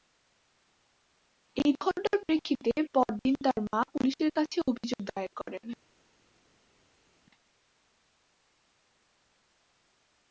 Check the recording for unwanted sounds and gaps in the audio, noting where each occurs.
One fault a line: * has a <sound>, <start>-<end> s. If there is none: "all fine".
all fine